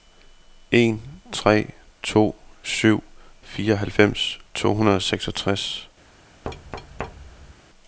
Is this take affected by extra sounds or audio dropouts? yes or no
yes